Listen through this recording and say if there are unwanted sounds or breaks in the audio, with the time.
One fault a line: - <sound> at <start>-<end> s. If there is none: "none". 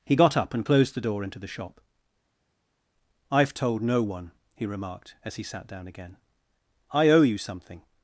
none